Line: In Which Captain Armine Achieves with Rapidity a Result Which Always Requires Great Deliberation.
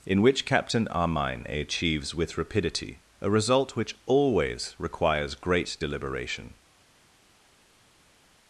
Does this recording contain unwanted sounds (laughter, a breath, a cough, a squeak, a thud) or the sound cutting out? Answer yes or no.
no